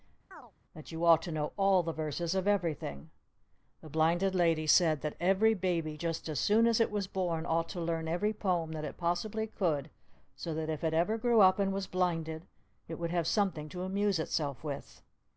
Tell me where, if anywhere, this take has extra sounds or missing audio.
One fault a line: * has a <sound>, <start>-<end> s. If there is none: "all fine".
* has a chirp, 0.3-0.5 s